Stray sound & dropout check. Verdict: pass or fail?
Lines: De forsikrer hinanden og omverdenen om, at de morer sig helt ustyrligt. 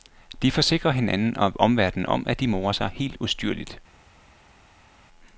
pass